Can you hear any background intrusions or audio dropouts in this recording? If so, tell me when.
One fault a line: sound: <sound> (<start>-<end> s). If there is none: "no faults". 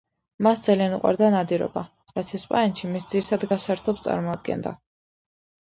no faults